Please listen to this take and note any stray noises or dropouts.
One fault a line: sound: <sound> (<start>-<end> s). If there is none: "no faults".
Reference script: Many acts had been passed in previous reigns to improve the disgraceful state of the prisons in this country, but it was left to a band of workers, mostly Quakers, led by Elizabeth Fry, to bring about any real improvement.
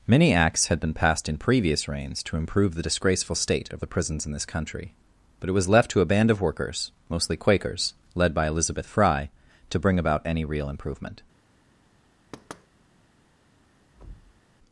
sound: thud (12.3-12.7 s)
sound: thud (14.0-14.4 s)